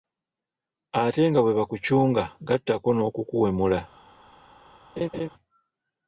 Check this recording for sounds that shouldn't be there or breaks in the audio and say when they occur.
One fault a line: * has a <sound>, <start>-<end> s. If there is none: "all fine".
* has a laugh, 5.0-5.3 s